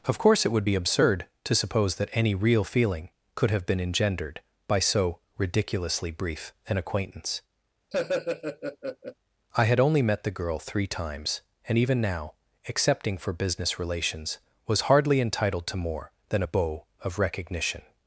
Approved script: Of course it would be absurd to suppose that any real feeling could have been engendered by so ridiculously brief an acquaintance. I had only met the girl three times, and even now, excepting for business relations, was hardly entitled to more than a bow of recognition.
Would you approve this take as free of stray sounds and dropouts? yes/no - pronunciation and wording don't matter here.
no